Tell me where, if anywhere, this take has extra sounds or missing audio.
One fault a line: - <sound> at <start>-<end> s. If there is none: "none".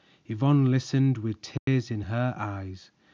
- dropout at 1.6-1.7 s